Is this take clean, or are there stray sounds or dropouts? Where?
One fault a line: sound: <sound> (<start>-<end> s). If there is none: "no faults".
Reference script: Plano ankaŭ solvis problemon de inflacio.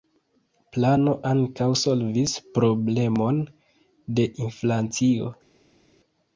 no faults